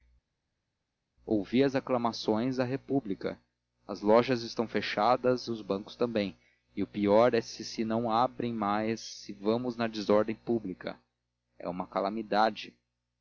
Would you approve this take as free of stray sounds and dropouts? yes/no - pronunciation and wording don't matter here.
yes